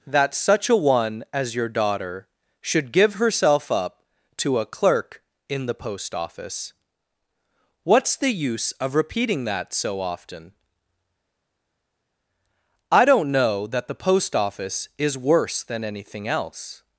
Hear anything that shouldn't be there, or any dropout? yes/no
no